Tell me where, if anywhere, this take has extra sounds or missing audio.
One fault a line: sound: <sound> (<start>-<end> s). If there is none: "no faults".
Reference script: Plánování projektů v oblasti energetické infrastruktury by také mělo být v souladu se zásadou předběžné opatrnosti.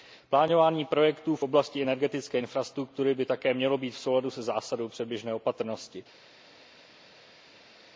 no faults